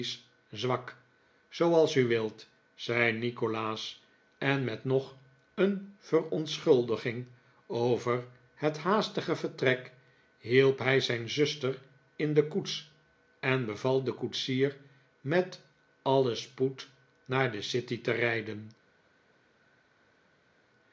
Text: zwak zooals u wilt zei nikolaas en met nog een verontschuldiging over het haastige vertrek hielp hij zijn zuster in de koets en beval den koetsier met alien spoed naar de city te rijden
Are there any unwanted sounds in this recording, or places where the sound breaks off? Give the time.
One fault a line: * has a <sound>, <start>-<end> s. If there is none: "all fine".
all fine